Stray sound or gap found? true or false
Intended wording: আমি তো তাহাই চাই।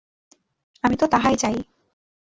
false